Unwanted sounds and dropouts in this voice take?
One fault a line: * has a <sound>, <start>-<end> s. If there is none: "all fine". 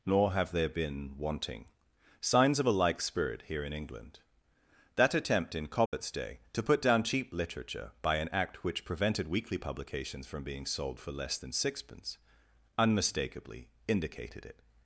* has a dropout, 5.9-5.9 s